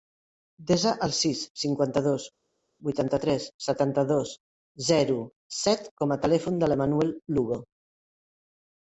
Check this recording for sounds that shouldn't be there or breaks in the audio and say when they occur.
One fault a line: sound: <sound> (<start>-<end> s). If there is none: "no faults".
no faults